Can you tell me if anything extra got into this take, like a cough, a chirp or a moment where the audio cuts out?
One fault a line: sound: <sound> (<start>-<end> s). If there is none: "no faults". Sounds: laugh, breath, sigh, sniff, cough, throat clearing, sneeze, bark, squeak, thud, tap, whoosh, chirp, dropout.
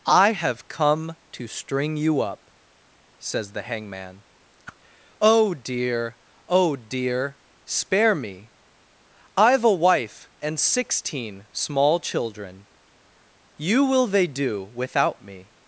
sound: whoosh (4.7-4.8 s)